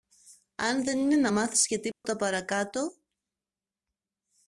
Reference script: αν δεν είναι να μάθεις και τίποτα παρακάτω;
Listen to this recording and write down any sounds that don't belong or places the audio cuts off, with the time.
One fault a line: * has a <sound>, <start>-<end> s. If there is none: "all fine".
* has a dropout, 1.9-2.0 s